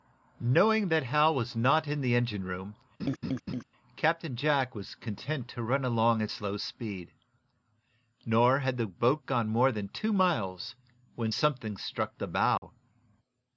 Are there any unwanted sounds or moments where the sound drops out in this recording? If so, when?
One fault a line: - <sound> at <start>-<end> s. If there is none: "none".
- laugh at 3.0-3.6 s
- dropout at 12.6-12.6 s